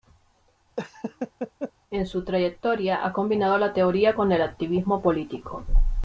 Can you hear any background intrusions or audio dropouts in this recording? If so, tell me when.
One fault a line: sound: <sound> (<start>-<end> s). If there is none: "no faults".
sound: laugh (0.8-1.7 s)